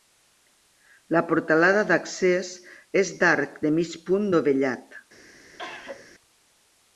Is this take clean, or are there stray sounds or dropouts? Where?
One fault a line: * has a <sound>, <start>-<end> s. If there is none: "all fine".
* has a cough, 5.6-6.1 s